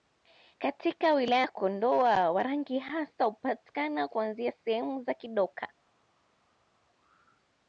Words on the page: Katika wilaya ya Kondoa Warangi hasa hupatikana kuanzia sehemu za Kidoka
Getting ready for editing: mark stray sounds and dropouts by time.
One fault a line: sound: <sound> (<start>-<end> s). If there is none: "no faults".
no faults